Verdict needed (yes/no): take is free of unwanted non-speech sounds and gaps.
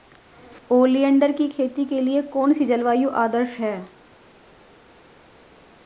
yes